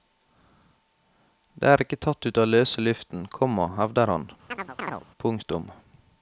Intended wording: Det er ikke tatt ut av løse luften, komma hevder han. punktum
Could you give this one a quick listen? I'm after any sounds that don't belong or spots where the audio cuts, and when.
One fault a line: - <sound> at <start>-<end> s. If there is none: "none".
- chirp at 4.5-5.0 s